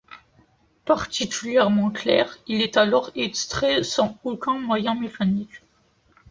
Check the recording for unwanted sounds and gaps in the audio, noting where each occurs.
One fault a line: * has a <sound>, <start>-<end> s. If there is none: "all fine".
all fine